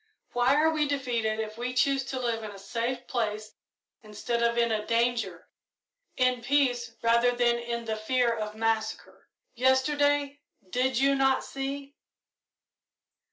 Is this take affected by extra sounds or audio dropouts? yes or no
no